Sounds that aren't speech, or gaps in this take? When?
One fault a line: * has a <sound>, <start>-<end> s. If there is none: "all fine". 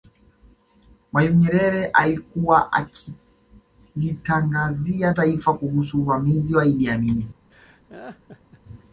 * has a laugh, 7.5-8.6 s